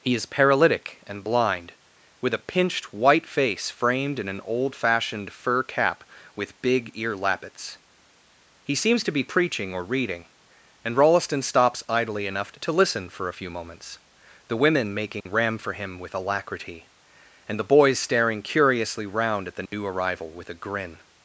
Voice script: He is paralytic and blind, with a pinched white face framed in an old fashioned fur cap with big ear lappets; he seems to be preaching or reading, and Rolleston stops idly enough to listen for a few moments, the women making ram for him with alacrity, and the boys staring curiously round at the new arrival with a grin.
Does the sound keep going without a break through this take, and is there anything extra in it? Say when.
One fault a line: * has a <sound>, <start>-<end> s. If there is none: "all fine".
* has a dropout, 15.2-15.3 s
* has a dropout, 19.7-19.7 s